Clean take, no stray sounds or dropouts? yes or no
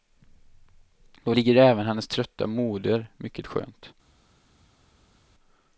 yes